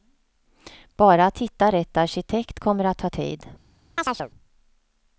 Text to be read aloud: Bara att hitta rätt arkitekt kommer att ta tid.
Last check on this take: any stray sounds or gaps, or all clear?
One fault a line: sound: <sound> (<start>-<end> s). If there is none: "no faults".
sound: chirp (4.0-4.3 s)